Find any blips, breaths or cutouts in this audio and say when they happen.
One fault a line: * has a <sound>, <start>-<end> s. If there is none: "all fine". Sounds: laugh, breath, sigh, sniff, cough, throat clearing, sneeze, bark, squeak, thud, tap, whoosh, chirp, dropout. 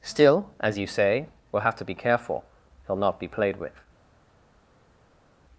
all fine